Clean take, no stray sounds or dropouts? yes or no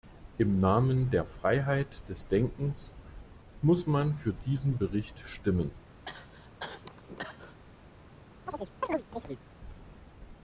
no